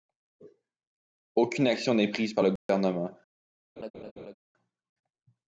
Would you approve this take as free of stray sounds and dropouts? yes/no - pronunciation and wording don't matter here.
no